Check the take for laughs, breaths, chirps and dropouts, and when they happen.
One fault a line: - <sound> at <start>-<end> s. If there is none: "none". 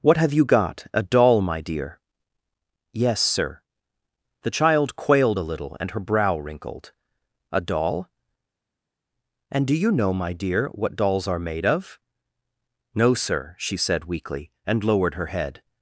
none